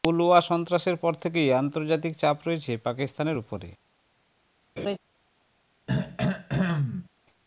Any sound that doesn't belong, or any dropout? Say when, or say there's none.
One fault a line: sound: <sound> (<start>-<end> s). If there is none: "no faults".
sound: laugh (4.8-5.0 s)
sound: throat clearing (5.9-7.1 s)